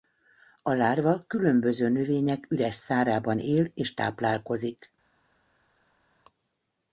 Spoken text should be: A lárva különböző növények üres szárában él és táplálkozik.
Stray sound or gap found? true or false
false